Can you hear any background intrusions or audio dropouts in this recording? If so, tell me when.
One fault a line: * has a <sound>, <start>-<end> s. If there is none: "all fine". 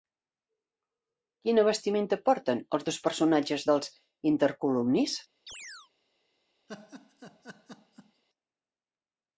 * has a chirp, 5.5-5.9 s
* has a laugh, 6.7-8.2 s